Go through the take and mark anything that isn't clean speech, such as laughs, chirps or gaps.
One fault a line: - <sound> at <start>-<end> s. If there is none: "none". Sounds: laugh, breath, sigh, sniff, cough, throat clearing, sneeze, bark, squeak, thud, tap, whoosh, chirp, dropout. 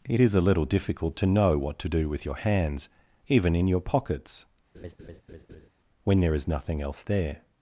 - laugh at 4.7-5.7 s